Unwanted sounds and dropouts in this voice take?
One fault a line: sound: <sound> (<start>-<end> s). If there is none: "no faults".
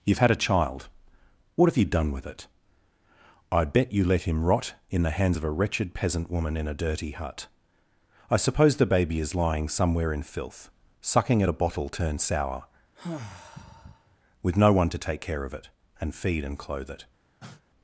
sound: sigh (13.0-14.2 s)
sound: cough (17.4-17.6 s)